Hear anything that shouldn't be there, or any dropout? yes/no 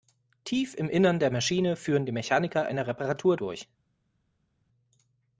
no